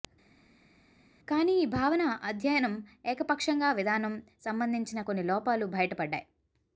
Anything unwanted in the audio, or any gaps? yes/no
no